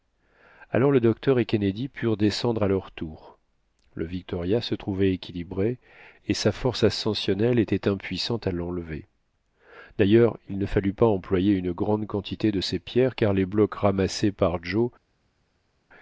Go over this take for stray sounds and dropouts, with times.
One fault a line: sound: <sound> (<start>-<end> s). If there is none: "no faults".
no faults